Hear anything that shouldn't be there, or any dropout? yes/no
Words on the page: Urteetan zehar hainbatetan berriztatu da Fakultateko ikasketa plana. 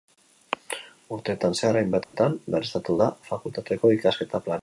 yes